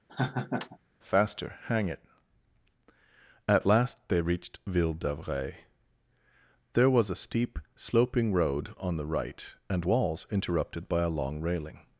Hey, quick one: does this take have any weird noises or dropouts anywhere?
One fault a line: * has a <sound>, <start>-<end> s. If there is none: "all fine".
* has a laugh, 0.1-0.8 s